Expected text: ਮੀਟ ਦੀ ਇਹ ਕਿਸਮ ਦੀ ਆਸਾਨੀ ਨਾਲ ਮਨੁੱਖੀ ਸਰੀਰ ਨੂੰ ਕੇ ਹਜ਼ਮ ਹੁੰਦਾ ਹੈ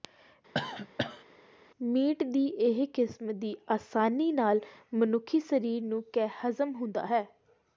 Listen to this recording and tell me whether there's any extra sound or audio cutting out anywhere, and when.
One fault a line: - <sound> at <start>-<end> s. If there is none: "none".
- cough at 0.5-1.2 s